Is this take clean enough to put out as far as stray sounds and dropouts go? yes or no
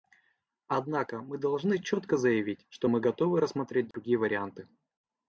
no